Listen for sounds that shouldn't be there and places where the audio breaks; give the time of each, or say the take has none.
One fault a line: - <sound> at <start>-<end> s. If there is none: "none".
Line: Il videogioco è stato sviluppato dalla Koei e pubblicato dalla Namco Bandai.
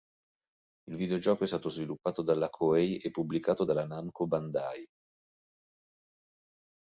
none